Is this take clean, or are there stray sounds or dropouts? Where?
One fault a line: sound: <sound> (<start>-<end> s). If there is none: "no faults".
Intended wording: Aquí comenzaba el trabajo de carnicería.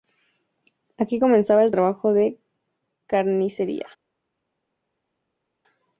no faults